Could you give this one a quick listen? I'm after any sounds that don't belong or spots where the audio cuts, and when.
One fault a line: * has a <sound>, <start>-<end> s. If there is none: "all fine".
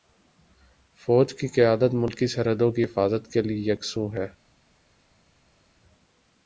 all fine